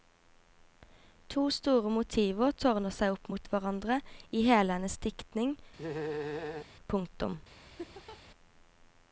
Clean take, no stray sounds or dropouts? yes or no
no